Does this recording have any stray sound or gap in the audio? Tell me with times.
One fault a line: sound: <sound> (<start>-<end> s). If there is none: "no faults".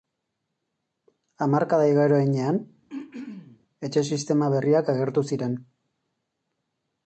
sound: throat clearing (2.9-3.6 s)